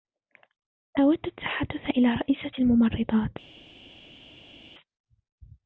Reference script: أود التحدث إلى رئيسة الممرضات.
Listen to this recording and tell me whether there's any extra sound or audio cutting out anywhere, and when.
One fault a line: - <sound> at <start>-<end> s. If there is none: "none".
none